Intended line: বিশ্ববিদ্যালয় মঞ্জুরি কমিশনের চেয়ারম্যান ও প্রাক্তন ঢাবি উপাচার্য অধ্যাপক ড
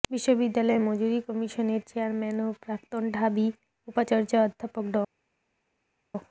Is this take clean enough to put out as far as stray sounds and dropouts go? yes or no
yes